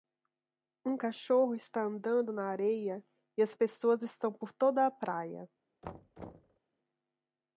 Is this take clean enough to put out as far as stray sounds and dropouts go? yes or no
no